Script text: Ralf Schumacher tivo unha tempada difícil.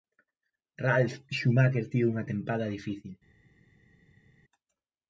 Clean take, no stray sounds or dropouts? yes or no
yes